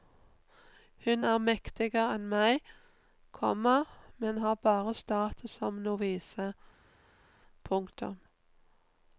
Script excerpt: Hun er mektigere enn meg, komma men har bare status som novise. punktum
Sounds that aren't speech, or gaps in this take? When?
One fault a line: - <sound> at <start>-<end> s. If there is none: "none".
none